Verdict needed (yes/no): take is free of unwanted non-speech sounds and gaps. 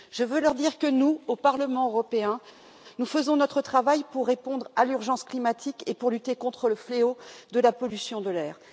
yes